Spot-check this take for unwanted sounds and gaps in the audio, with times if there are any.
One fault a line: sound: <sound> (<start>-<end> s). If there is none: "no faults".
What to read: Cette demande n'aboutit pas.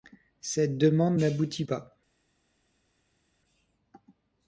no faults